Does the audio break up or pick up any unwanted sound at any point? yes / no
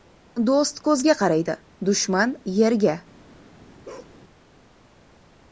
yes